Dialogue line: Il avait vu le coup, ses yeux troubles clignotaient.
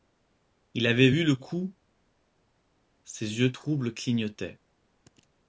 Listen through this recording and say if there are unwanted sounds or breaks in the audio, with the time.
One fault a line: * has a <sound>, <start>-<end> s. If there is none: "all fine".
all fine